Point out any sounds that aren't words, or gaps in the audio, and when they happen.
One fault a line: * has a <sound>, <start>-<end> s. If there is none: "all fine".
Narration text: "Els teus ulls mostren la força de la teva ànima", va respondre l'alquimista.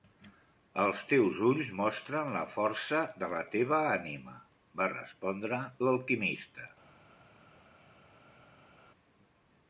all fine